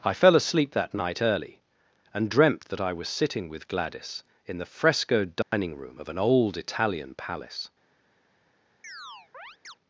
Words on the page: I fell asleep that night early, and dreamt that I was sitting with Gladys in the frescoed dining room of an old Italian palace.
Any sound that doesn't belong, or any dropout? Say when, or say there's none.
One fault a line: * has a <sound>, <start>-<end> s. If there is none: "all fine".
* has a dropout, 5.4-5.5 s
* has a chirp, 8.8-9.8 s